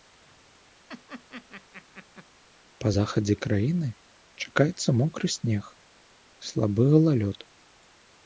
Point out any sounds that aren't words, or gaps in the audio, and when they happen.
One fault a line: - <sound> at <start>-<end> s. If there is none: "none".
- laugh at 0.9-2.3 s